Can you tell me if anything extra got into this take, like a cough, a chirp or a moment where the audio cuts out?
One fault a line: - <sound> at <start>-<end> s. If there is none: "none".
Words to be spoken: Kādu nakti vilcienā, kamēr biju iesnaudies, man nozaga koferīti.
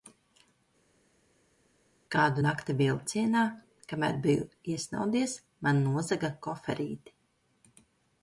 none